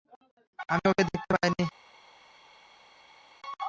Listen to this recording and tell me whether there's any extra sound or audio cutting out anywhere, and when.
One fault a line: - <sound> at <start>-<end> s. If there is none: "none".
none